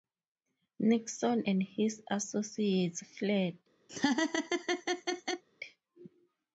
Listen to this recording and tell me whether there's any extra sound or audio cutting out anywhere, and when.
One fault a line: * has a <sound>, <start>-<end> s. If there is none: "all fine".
* has a laugh, 3.9-5.4 s